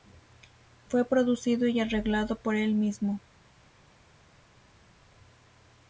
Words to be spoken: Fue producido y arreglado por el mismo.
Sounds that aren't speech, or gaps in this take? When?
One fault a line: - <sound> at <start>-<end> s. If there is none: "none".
none